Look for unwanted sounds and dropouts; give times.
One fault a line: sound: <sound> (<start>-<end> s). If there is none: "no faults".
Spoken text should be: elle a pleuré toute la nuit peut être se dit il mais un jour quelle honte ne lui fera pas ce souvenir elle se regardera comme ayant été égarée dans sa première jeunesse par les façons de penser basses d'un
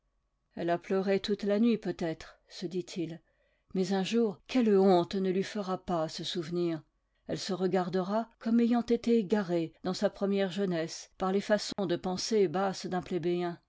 sound: dropout (11.7-11.8 s)